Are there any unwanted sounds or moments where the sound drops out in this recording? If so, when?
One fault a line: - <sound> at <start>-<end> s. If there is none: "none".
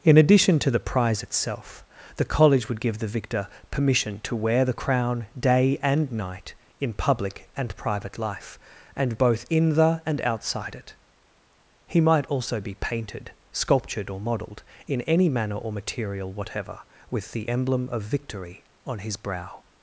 none